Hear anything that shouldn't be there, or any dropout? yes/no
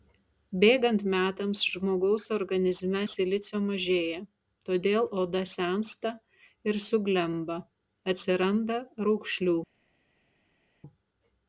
no